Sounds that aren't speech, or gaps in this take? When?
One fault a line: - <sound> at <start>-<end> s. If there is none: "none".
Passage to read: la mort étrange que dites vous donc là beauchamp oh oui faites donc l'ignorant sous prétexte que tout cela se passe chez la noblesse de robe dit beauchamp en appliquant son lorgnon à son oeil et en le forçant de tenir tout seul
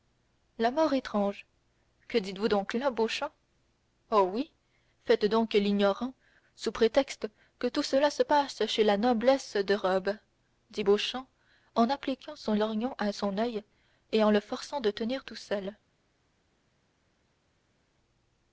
none